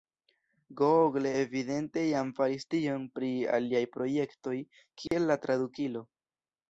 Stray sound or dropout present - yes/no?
yes